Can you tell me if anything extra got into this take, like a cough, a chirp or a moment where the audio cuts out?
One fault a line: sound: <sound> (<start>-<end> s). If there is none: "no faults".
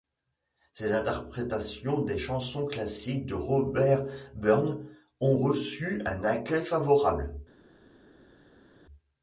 no faults